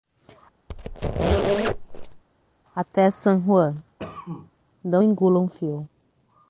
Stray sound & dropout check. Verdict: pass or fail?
fail